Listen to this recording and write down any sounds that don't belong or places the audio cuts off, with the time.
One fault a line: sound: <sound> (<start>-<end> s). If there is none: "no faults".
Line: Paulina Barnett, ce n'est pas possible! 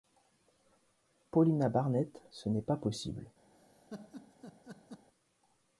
sound: laugh (3.5-5.1 s)